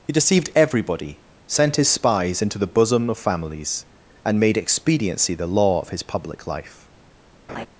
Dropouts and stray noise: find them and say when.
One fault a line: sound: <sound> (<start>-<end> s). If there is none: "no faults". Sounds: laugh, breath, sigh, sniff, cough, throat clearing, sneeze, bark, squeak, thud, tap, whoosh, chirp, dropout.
sound: laugh (7.5-7.7 s)